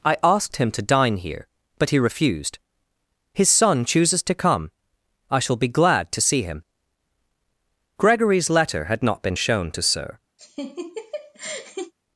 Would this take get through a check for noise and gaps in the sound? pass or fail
fail